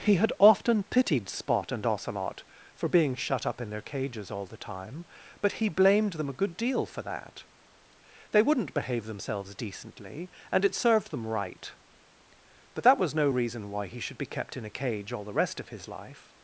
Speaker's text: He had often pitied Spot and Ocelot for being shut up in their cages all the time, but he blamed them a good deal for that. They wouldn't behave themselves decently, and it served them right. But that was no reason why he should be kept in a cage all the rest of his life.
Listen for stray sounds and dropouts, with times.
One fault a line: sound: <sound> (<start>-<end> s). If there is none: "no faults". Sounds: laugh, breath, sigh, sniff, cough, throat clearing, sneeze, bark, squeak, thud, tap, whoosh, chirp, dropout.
no faults